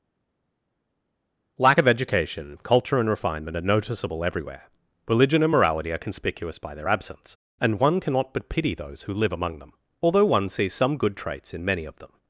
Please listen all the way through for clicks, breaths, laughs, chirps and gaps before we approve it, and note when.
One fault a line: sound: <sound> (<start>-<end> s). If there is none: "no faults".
no faults